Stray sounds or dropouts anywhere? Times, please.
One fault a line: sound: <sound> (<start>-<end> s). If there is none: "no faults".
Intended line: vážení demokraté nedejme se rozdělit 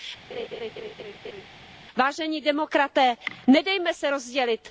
sound: laugh (0.3-1.5 s)